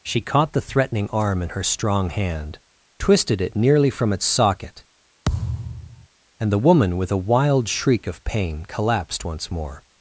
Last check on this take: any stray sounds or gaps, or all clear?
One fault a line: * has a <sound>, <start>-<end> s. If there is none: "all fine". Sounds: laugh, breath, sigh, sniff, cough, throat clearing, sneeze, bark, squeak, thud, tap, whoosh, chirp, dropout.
* has a thud, 5.2-6.1 s